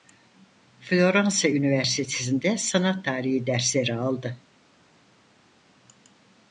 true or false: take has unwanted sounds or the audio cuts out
false